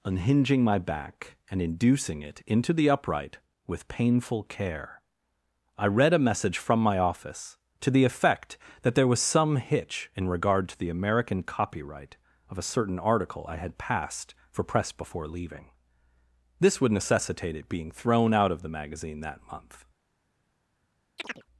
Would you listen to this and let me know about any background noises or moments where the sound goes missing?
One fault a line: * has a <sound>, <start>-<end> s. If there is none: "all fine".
* has a chirp, 21.2-21.5 s